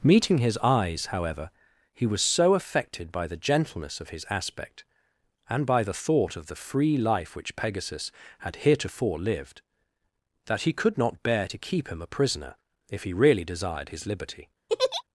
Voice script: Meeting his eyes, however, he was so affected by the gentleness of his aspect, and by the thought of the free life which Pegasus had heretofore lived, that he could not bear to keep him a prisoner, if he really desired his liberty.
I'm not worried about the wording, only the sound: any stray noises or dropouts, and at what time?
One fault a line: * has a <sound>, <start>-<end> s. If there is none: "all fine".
* has a laugh, 14.7-15.0 s